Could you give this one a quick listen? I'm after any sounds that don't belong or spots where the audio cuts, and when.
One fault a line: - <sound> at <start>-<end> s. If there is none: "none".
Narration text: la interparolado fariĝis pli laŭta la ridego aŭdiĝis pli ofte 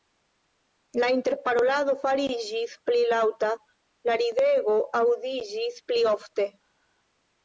none